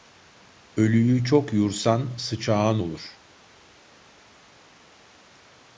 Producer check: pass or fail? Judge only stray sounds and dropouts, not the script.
pass